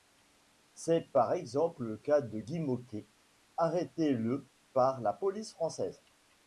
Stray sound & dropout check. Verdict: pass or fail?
pass